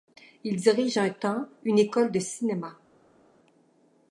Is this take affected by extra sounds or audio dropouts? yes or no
no